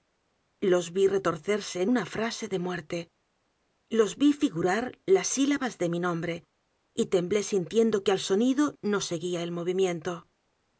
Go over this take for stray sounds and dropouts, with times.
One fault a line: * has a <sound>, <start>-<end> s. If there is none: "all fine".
all fine